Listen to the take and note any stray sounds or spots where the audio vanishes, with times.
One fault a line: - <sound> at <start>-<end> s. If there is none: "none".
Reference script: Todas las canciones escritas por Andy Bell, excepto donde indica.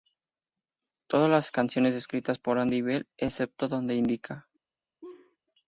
- laugh at 5.0-5.4 s